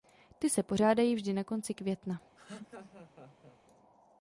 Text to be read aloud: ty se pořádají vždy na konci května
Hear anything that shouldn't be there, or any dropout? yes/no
yes